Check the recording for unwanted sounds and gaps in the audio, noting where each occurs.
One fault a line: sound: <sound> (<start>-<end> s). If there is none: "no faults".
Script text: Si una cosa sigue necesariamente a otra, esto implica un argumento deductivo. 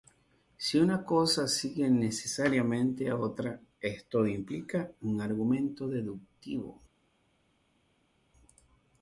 no faults